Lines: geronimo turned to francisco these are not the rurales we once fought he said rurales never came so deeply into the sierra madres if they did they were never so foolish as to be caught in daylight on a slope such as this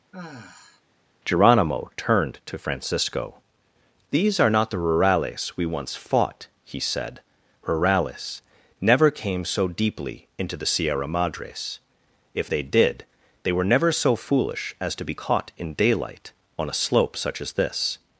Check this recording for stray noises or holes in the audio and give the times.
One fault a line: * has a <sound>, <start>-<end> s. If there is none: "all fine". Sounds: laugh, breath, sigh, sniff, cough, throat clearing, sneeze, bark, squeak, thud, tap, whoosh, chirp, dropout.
* has a sigh, 0.1-0.8 s